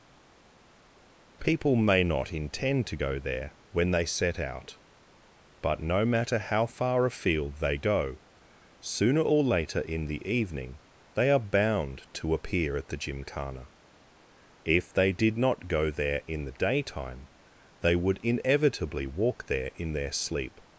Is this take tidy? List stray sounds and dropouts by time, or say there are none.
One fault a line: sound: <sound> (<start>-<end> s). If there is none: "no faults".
no faults